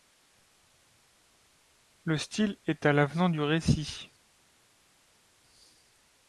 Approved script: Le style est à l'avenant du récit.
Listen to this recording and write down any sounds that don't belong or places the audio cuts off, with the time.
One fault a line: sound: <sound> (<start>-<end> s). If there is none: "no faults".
no faults